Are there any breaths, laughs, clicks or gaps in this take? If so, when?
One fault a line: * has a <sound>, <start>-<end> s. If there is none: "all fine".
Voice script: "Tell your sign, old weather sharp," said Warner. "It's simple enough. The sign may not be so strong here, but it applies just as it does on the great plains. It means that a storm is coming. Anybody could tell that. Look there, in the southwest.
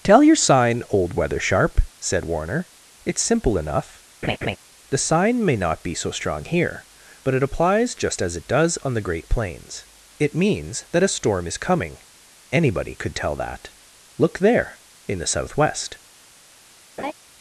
* has a laugh, 4.2-4.6 s
* has a laugh, 17.0-17.1 s